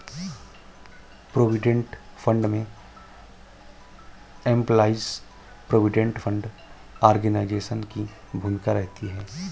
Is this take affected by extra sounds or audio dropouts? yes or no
no